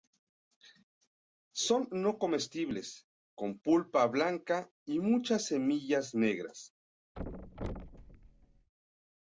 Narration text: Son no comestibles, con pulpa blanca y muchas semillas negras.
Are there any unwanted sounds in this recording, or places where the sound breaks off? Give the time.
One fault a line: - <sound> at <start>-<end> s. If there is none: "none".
- thud at 7.2-8.7 s